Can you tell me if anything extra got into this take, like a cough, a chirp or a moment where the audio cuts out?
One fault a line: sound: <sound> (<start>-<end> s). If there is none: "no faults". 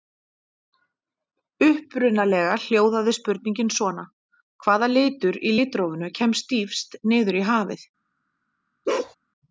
sound: bark (8.9-9.2 s)